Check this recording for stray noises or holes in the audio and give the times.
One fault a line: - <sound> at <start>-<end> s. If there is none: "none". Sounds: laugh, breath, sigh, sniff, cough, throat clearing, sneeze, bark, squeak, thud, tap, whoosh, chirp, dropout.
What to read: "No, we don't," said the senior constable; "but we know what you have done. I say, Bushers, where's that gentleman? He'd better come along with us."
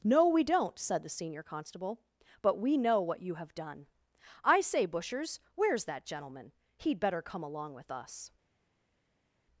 none